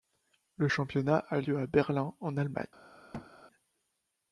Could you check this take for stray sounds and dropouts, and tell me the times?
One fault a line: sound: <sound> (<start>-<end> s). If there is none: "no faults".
sound: thud (3.1-3.3 s)